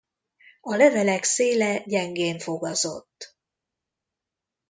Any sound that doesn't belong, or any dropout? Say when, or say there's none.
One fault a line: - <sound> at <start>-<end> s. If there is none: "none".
none